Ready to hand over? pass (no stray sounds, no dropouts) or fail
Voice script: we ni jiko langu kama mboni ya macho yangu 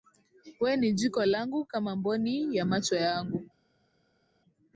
pass